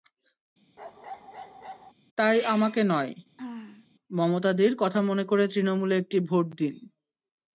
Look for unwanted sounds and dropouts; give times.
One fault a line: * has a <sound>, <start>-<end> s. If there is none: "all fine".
* has a bark, 0.8-1.9 s
* has a throat clearing, 3.4-3.9 s